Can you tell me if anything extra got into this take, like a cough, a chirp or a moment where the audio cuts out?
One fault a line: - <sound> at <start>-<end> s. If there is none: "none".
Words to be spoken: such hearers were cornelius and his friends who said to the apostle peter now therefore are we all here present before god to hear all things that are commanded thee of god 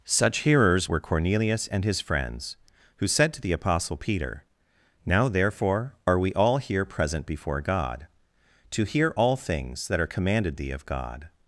none